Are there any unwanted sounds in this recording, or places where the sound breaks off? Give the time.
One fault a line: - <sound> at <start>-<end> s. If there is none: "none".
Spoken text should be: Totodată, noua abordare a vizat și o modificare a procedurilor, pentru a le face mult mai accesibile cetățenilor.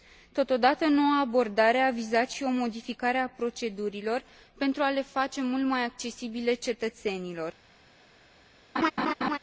- laugh at 8.8-9.4 s